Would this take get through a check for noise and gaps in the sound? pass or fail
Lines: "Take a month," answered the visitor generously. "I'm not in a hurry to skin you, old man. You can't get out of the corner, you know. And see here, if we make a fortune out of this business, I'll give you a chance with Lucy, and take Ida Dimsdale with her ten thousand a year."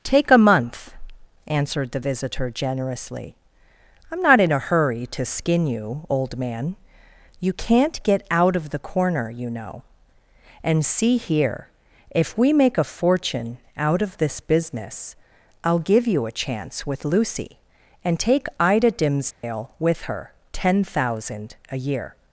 fail